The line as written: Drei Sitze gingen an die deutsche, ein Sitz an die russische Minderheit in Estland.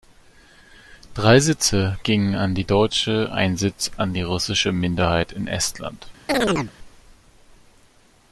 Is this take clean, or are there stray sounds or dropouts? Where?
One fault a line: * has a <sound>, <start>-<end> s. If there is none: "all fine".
* has a chirp, 6.3-6.7 s